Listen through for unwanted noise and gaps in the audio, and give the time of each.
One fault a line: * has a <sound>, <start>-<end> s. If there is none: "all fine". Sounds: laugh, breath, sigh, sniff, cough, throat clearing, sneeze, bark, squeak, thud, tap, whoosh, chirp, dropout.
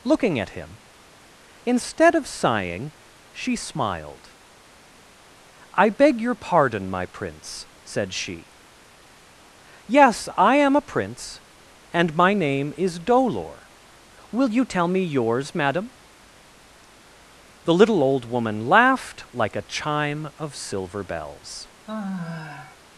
* has a sigh, 21.9-22.8 s